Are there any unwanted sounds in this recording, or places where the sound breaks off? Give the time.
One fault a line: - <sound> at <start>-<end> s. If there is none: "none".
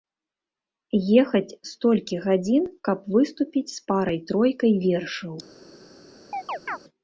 - chirp at 6.3-6.8 s